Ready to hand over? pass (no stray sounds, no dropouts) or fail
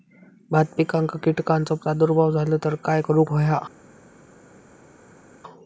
pass